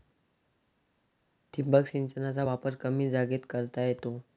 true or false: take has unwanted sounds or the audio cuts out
false